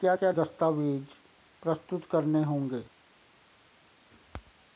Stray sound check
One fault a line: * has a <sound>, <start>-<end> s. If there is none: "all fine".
all fine